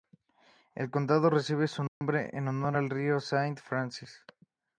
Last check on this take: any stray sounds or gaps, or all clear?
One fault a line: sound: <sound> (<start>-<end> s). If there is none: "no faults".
sound: dropout (1.9-2.0 s)